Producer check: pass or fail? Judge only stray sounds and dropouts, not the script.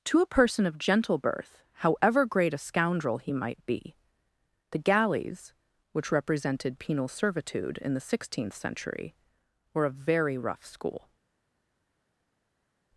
pass